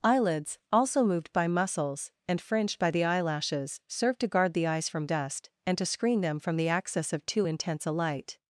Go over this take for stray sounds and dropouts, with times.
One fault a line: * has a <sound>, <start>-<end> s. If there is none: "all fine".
all fine